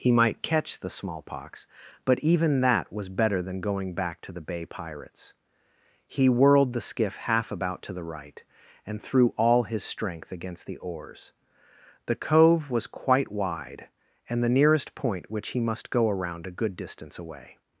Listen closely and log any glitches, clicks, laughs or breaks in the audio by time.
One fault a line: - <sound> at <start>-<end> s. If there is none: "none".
none